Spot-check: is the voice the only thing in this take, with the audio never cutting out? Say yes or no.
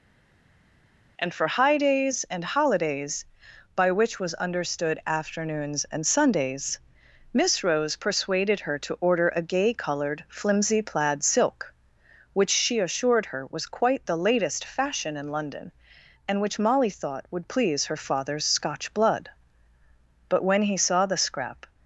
yes